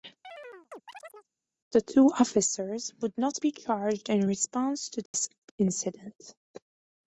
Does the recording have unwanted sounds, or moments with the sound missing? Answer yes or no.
yes